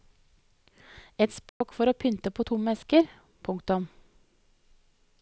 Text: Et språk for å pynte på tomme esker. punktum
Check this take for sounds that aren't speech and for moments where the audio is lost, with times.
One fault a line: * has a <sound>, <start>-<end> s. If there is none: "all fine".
* has a dropout, 1.5-1.6 s